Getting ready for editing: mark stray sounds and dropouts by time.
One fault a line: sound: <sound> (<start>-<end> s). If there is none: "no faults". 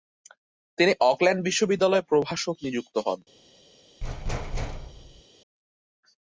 sound: thud (4.0-5.2 s)